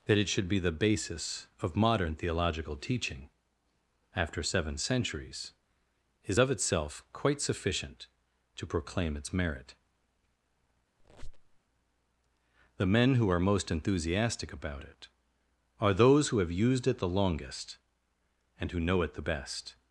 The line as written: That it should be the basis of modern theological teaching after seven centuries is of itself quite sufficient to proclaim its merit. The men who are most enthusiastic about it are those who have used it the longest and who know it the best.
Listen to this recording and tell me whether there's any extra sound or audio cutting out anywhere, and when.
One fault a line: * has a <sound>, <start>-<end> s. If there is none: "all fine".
* has a squeak, 11.0-11.6 s